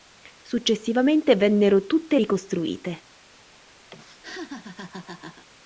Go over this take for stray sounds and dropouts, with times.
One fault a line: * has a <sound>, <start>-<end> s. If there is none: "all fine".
* has a laugh, 3.9-5.5 s